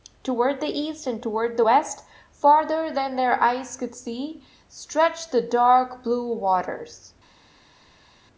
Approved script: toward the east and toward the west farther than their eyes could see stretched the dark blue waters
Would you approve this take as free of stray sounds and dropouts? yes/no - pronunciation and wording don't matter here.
yes